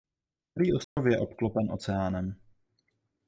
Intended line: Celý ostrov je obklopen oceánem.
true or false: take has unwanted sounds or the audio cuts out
true